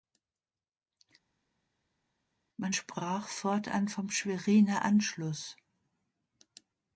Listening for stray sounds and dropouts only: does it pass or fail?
pass